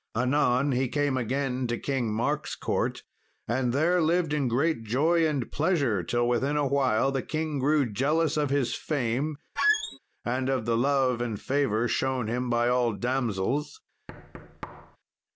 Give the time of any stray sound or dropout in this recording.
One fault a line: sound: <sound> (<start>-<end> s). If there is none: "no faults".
sound: squeak (9.6-10.0 s)
sound: thud (14.1-15.0 s)